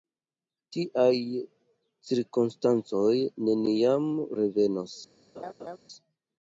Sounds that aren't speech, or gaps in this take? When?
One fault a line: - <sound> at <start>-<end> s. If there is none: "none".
- laugh at 5.3-5.8 s